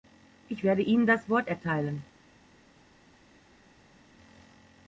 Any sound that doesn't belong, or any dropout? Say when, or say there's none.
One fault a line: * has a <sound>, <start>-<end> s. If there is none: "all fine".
all fine